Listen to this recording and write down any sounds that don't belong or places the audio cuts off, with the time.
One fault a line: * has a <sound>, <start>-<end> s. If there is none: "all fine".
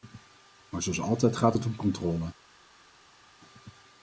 all fine